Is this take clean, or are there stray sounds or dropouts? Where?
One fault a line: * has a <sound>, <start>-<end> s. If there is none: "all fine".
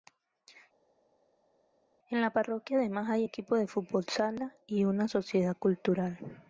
all fine